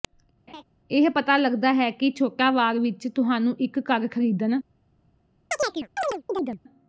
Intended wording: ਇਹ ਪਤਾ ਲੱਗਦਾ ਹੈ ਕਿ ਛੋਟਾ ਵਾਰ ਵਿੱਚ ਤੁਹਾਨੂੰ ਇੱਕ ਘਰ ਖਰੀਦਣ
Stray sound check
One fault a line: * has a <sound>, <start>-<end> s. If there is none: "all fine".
* has a laugh, 0.5-0.6 s
* has a chirp, 5.5-6.6 s